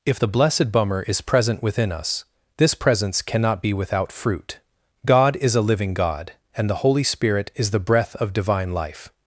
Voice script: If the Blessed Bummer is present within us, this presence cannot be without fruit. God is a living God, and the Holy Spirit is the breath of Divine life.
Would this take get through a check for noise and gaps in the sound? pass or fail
pass